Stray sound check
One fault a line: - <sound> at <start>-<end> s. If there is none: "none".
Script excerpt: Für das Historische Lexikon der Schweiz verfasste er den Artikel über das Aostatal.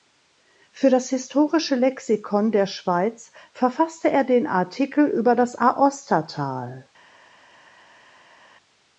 none